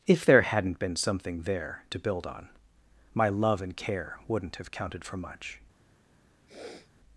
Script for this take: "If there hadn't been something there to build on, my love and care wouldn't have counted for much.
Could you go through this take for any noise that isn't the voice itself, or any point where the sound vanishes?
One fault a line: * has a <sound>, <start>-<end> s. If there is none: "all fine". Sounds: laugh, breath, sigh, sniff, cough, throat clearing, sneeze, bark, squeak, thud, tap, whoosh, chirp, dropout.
* has a sniff, 6.5-6.9 s